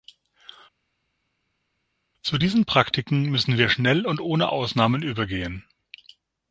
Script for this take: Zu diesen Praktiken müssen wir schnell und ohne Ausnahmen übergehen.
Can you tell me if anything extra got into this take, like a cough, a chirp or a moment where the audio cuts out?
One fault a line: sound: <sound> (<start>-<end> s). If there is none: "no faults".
no faults